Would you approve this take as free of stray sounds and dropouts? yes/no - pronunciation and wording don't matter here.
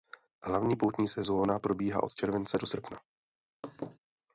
no